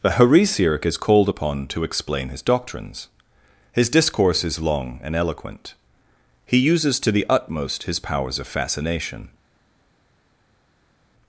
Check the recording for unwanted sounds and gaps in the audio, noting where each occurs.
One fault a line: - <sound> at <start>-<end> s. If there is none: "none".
none